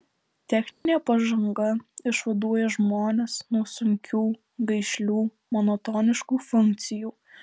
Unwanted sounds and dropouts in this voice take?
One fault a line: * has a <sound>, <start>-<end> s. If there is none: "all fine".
* has a dropout, 0.7-0.9 s